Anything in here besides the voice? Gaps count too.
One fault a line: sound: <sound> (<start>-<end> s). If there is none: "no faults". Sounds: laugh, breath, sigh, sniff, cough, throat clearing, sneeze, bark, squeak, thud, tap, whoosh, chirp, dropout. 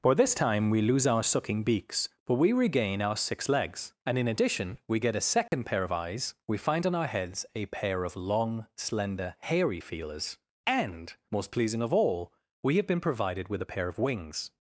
sound: dropout (5.5-5.5 s)